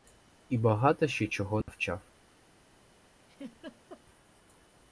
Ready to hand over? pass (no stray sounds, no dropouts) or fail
fail